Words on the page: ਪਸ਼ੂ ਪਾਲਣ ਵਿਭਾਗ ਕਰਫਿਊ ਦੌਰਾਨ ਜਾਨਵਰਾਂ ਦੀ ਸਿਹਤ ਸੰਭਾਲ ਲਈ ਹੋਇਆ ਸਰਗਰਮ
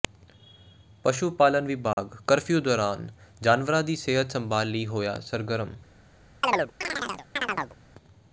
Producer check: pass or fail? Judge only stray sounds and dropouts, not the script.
fail